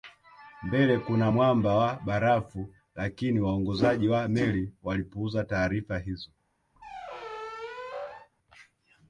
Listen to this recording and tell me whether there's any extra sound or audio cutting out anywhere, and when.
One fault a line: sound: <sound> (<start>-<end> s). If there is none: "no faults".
sound: squeak (6.8-8.3 s)